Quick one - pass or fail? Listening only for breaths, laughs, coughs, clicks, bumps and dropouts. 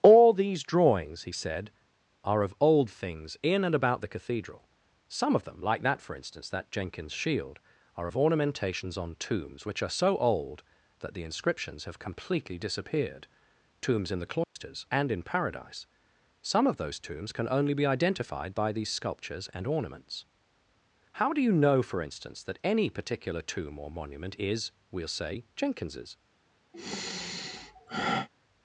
fail